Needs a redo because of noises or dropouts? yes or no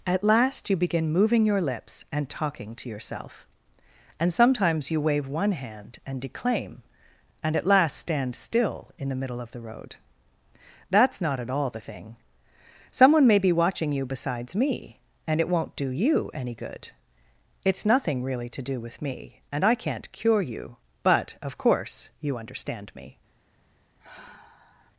yes